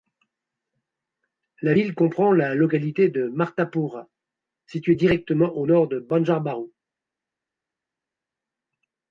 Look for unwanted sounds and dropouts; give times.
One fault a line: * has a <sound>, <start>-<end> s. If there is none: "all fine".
all fine